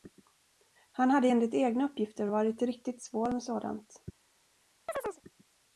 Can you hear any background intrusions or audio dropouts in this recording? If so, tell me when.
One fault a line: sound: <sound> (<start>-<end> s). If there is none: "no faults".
sound: chirp (4.9-5.2 s)